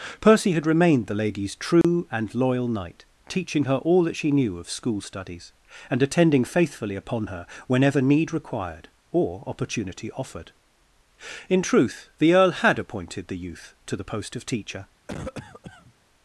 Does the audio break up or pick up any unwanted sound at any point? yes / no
yes